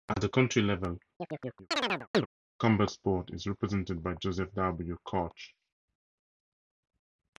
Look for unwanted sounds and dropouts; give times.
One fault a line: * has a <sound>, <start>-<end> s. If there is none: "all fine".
* has a chirp, 1.2-2.3 s